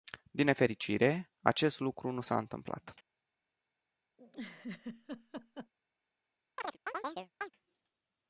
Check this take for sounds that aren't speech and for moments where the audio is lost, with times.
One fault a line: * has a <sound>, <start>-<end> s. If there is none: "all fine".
* has a laugh, 4.2-5.7 s
* has a chirp, 6.6-7.5 s